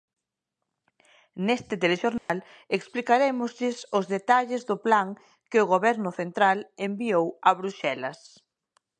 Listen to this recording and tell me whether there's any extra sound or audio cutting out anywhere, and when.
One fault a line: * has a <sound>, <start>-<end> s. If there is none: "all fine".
* has a dropout, 2.2-2.3 s